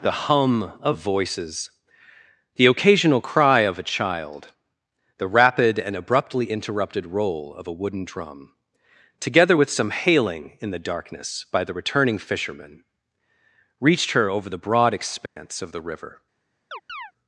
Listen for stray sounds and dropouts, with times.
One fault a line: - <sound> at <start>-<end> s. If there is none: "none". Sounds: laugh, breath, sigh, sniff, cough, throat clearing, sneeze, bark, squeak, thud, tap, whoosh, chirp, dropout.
- dropout at 15.3-15.4 s
- chirp at 16.7-17.1 s